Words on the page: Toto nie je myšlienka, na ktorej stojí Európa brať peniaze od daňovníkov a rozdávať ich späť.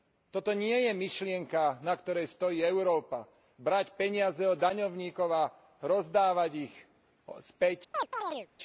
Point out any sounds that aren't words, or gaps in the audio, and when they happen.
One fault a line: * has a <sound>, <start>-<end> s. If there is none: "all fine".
* has a chirp, 7.9-8.5 s